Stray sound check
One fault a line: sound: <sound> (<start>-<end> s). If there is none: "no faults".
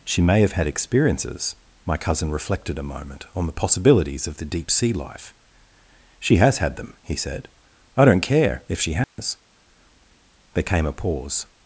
sound: dropout (9.0-9.2 s)